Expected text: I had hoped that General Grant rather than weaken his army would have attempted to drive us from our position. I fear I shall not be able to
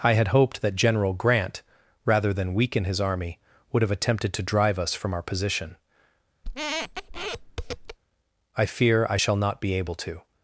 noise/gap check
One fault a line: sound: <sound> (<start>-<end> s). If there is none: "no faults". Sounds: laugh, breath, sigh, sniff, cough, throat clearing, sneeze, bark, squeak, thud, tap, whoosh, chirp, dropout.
sound: squeak (6.4-8.0 s)